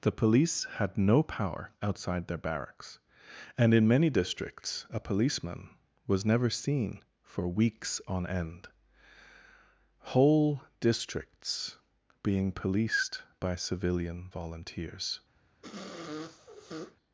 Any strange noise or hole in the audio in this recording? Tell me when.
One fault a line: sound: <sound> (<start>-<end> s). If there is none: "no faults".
sound: sniff (15.6-17.0 s)